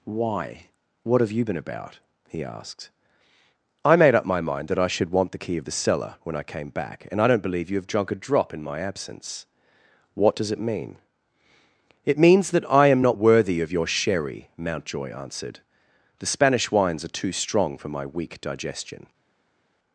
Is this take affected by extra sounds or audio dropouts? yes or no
no